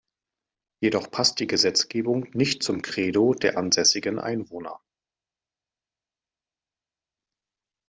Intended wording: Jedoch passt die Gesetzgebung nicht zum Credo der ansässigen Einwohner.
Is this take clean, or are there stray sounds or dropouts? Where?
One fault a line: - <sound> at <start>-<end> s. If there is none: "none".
none